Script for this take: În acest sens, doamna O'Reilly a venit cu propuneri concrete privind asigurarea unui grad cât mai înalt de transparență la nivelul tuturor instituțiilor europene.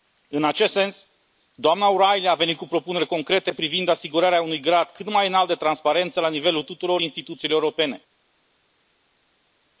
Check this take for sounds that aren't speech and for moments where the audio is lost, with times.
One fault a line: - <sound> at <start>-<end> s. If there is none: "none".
none